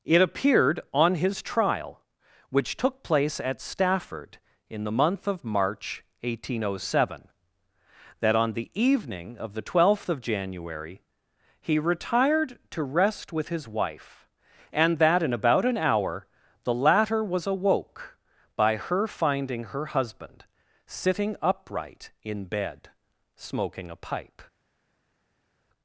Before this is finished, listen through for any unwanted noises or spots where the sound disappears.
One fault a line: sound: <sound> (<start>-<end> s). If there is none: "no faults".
no faults